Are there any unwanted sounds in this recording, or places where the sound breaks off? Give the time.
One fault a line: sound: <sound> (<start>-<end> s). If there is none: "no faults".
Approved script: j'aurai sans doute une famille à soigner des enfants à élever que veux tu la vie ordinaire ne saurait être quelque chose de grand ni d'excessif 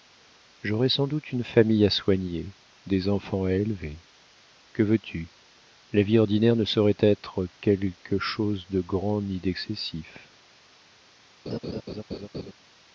sound: laugh (11.5-12.5 s)